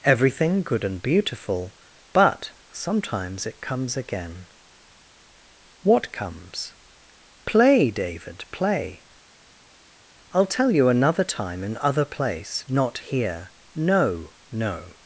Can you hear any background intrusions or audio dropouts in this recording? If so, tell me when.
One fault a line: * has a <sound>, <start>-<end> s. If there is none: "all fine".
all fine